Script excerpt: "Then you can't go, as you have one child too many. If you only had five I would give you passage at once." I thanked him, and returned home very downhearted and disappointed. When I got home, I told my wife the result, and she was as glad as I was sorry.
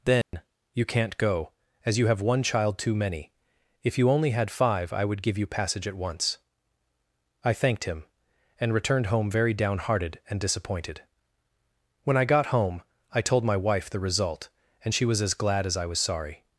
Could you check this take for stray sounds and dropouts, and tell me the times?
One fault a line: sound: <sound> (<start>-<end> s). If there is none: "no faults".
sound: dropout (0.2-0.3 s)